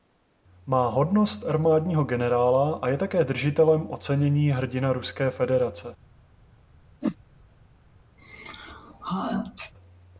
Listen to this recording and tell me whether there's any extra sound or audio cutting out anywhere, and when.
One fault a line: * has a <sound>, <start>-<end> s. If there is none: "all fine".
* has a whoosh, 7.0-7.2 s
* has a sneeze, 8.2-9.7 s